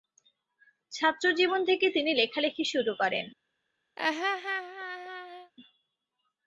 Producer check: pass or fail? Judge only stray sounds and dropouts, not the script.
fail